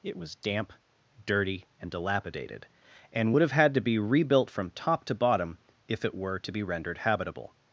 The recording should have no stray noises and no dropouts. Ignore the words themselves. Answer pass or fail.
pass